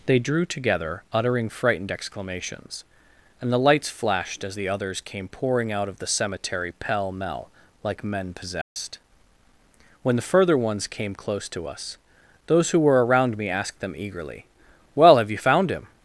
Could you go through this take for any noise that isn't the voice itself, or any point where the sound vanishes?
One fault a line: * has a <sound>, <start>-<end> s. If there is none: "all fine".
* has a dropout, 8.6-8.8 s